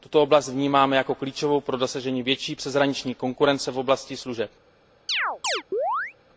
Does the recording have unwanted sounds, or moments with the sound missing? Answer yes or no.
yes